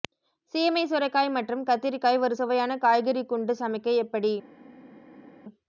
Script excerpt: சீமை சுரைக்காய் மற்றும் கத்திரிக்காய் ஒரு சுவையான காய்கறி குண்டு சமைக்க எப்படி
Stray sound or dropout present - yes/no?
no